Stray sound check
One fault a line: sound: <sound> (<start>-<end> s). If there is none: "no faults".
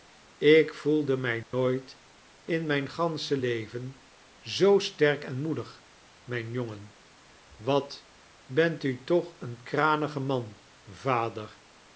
sound: dropout (1.4-1.5 s)